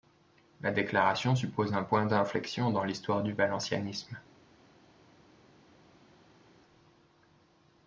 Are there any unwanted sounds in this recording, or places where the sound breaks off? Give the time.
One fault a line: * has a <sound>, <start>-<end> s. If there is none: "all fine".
all fine